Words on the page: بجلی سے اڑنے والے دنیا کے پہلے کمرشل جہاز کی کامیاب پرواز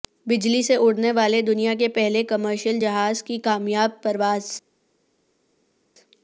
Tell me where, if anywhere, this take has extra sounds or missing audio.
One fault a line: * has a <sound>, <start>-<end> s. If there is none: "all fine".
all fine